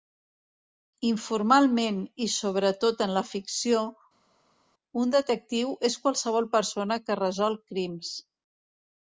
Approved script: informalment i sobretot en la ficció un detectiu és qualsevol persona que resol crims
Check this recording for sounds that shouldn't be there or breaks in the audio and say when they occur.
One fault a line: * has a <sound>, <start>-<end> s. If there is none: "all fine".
all fine